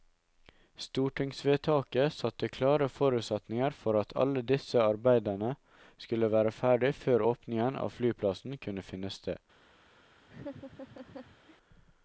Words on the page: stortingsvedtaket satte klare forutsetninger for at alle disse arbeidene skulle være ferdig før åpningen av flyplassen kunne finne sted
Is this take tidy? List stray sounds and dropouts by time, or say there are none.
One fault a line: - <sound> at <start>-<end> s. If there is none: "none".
- laugh at 10.3-11.6 s